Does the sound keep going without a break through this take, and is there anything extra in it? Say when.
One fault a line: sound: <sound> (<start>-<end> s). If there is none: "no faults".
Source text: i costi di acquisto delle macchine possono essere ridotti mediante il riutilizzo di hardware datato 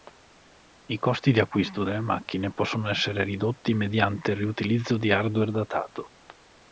no faults